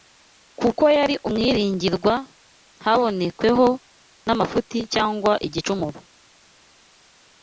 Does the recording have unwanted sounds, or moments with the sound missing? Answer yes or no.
no